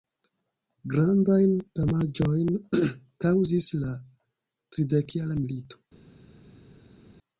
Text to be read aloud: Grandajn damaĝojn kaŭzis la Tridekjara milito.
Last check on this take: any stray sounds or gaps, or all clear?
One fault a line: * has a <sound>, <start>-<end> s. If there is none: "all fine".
all fine